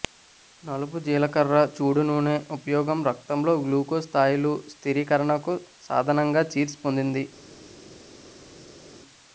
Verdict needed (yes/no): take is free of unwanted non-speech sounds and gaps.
yes